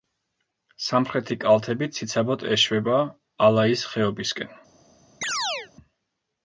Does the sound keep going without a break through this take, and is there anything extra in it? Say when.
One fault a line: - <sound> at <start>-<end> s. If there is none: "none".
- chirp at 5.2-5.7 s